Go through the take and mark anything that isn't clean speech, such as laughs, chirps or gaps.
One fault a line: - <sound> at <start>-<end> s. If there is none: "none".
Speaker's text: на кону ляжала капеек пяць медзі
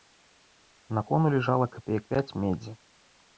none